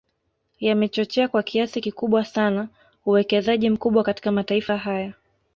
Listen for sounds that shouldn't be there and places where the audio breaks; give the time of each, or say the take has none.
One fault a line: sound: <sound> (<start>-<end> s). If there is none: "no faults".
no faults